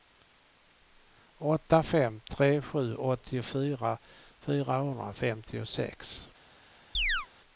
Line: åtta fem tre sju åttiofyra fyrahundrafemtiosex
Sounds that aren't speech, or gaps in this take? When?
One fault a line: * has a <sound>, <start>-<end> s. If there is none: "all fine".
* has a chirp, 6.9-7.3 s